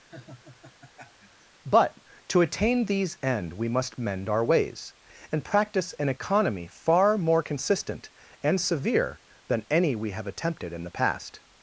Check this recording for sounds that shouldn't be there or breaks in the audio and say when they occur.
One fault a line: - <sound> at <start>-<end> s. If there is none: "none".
- laugh at 0.1-1.5 s